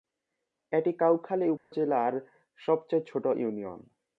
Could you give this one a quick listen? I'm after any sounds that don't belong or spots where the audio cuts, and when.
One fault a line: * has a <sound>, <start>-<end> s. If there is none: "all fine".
* has a dropout, 1.6-1.7 s